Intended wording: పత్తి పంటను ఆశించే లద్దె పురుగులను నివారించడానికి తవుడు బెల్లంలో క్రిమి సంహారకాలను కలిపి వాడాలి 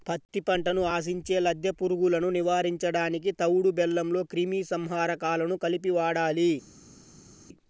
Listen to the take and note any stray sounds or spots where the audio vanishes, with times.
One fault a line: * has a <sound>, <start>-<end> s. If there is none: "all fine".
all fine